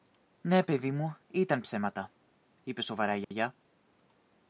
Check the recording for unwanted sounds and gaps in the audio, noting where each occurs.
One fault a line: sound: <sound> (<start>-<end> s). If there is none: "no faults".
sound: dropout (3.2-3.3 s)